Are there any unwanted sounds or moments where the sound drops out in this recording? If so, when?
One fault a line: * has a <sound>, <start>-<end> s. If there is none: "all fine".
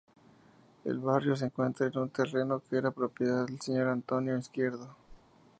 * has a whoosh, 5.1-5.2 s